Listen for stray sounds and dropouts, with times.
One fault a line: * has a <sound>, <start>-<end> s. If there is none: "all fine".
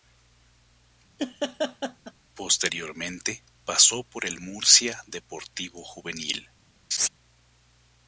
* has a laugh, 1.2-2.1 s
* has a laugh, 6.9-7.1 s